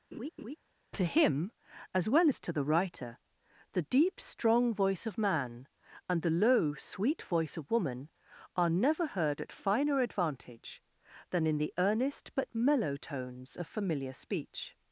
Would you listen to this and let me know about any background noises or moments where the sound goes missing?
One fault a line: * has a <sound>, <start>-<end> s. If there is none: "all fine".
* has a laugh, 0.1-0.6 s